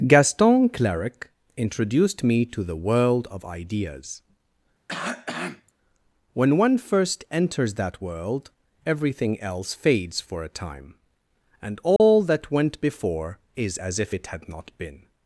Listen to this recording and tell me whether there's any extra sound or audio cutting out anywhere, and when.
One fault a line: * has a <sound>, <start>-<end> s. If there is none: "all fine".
* has a cough, 4.9-5.7 s
* has a dropout, 12.0-12.0 s